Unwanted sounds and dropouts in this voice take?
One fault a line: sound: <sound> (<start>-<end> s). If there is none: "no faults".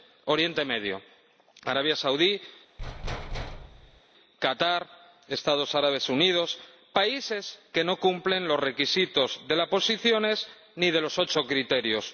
sound: thud (2.8-4.0 s)